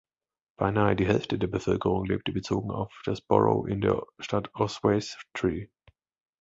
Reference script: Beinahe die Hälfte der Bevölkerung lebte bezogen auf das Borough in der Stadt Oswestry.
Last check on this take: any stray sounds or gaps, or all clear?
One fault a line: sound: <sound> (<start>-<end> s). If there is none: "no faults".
no faults